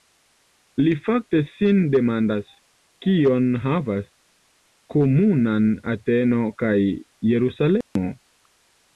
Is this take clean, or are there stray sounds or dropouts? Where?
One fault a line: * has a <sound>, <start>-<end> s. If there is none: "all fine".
* has a dropout, 7.8-8.0 s